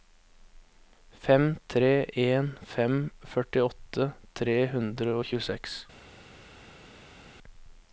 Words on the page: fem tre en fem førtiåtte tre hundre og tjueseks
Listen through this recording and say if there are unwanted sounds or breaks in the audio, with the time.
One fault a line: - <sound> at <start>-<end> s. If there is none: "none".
none